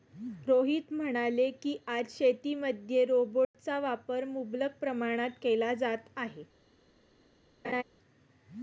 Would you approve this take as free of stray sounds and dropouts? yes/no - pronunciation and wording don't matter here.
no